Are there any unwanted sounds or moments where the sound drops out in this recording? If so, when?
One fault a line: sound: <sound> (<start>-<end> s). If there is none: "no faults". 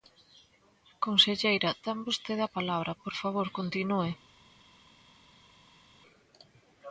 no faults